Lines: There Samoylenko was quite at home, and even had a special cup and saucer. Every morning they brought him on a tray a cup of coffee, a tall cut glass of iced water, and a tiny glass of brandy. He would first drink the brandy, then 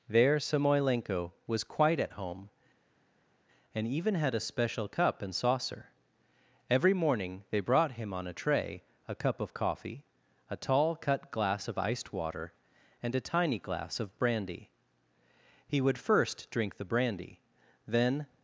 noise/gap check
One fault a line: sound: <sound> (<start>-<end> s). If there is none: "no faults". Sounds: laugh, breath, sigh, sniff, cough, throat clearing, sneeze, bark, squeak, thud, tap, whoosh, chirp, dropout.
no faults